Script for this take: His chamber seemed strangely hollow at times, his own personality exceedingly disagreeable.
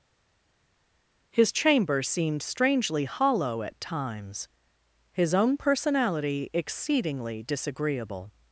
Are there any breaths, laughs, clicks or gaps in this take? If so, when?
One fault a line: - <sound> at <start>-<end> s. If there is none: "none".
none